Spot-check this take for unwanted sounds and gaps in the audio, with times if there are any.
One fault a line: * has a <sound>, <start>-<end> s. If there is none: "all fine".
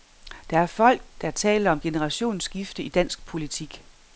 all fine